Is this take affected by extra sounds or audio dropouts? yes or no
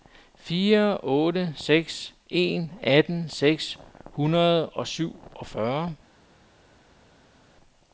no